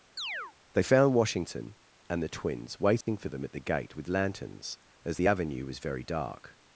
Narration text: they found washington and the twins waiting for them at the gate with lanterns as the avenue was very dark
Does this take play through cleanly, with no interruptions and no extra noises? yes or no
no